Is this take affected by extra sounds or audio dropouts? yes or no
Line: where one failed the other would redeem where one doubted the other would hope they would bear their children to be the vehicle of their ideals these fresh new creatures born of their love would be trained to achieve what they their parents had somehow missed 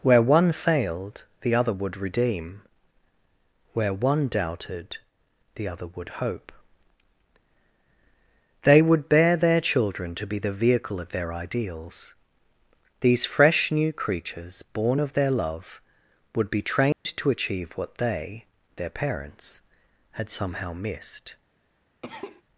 yes